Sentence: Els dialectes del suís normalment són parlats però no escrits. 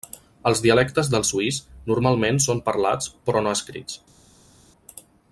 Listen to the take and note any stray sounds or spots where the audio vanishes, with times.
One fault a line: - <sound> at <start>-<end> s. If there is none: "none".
none